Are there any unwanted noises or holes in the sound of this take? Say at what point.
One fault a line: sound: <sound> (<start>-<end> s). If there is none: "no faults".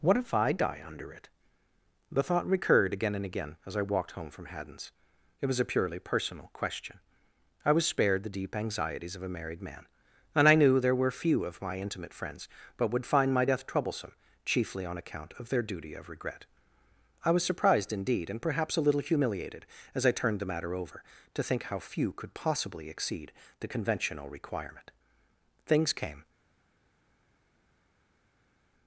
no faults